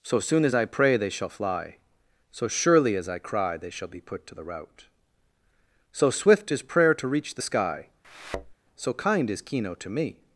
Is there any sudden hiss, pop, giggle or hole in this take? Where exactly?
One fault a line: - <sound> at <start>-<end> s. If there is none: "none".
- thud at 8.0-8.5 s